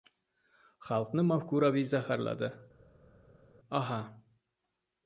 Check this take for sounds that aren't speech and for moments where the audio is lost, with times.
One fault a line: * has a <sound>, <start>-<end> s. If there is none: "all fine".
all fine